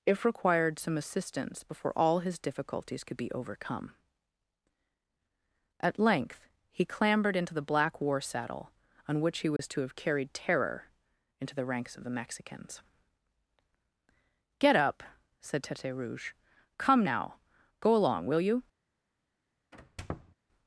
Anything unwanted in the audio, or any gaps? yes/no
yes